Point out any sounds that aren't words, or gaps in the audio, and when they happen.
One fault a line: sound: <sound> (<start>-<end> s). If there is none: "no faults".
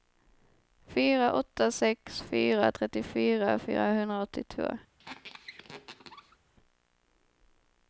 sound: squeak (5.0-6.4 s)